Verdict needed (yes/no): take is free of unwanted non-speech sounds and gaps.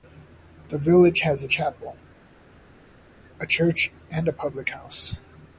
yes